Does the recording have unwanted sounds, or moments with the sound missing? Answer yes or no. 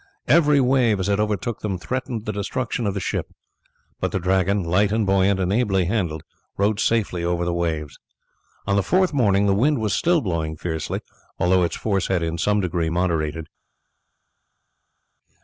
no